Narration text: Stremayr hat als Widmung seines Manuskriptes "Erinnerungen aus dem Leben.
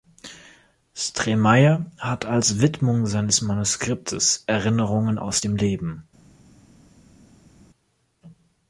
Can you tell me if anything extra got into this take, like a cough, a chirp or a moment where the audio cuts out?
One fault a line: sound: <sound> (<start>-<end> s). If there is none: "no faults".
no faults